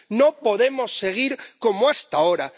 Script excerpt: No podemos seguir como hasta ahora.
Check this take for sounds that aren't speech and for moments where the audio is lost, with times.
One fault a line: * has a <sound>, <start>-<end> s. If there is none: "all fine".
all fine